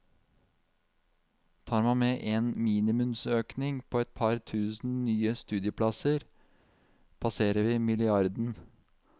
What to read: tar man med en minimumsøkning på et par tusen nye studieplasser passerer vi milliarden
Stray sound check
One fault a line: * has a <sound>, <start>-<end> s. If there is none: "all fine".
all fine